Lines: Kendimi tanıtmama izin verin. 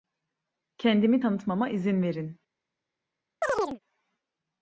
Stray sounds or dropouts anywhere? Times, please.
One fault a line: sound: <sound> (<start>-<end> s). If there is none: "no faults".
sound: chirp (3.4-3.8 s)